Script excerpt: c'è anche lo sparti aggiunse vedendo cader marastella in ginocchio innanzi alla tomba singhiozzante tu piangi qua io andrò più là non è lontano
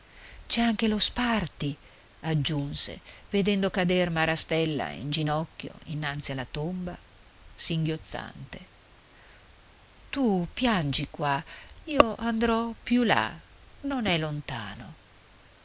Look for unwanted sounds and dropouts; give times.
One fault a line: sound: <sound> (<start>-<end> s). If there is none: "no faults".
no faults